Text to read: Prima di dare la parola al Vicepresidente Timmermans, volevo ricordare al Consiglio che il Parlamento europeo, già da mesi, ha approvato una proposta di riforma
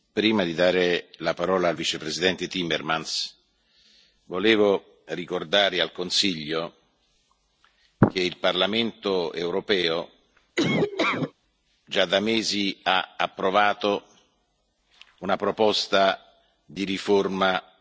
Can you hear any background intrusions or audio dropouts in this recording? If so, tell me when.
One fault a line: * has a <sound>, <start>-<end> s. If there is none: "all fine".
* has a laugh, 10.6-11.3 s